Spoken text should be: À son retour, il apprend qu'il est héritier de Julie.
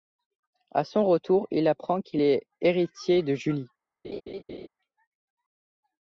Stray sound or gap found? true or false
true